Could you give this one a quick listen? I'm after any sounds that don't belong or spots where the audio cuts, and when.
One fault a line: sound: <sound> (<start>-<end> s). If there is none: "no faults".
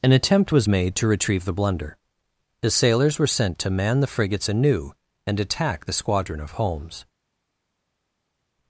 no faults